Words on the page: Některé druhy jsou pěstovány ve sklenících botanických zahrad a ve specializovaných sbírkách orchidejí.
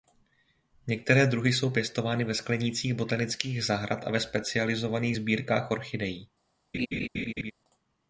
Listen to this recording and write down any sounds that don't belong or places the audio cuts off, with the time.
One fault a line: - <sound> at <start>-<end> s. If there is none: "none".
- laugh at 6.7-7.5 s